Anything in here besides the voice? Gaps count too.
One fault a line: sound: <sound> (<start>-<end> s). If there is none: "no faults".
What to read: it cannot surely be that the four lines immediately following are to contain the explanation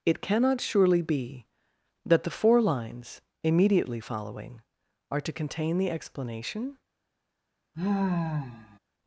sound: sigh (7.7-8.8 s)